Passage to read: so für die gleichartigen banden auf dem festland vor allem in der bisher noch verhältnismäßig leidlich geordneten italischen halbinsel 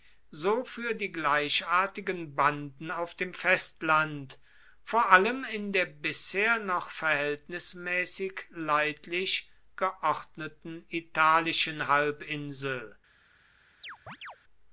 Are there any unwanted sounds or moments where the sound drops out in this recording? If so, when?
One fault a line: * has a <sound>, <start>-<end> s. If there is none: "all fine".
* has a chirp, 13.8-14.4 s